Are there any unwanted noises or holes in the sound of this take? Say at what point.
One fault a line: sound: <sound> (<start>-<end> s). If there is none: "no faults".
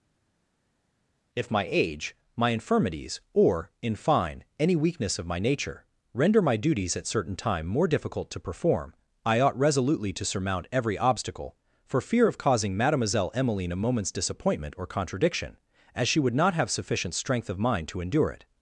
no faults